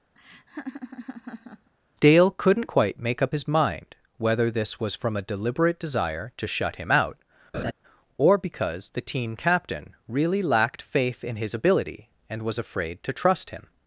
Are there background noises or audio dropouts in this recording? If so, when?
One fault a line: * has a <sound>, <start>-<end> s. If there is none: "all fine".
* has a laugh, 0.2-1.7 s
* has a laugh, 7.5-7.7 s